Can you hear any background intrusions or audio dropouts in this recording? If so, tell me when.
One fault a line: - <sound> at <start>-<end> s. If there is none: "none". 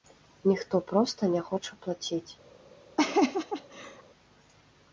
- laugh at 3.0-4.0 s